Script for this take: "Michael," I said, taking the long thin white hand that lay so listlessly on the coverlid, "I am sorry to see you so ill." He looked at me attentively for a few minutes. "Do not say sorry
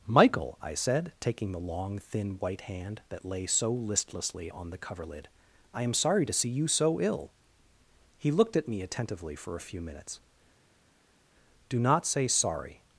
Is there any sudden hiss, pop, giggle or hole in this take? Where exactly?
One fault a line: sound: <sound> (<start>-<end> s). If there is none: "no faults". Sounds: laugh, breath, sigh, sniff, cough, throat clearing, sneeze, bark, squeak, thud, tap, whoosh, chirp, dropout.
no faults